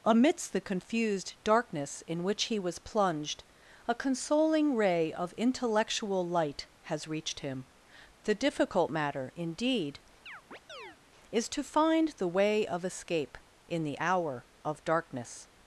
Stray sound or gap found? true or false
true